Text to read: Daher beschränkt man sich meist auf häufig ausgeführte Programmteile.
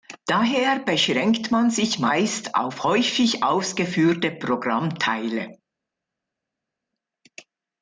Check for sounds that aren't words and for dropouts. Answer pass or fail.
pass